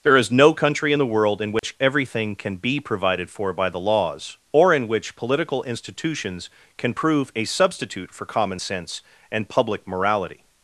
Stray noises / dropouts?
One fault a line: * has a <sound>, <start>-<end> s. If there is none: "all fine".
* has a dropout, 1.6-1.6 s